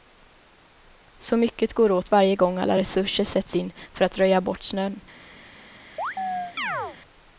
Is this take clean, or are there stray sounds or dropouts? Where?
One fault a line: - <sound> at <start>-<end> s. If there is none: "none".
- chirp at 6.0-7.0 s